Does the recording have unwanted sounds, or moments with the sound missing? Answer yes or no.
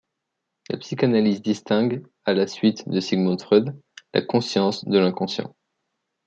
no